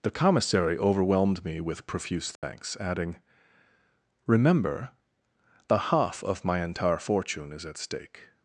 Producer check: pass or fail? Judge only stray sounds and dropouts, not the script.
fail